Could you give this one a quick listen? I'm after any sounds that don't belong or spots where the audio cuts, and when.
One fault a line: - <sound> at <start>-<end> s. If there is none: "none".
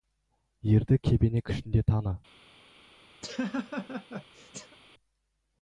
- laugh at 3.2-4.8 s